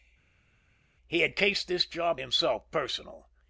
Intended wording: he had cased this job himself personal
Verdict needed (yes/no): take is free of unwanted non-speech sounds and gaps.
yes